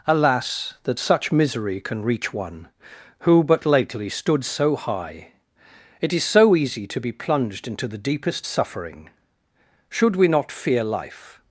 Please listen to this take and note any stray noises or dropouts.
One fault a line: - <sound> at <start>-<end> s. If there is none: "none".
none